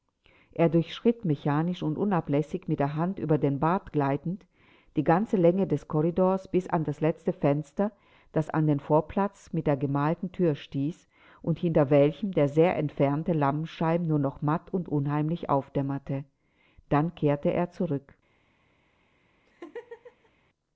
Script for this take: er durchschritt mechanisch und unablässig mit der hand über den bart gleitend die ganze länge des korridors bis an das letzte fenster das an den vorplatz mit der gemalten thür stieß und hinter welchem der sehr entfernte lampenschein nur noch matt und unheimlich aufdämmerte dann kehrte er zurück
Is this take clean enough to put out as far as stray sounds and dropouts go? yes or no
no